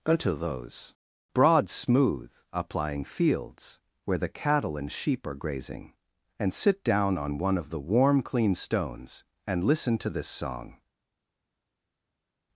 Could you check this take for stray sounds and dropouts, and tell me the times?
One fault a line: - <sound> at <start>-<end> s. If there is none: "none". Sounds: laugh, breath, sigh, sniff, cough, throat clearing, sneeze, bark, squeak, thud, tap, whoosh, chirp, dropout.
none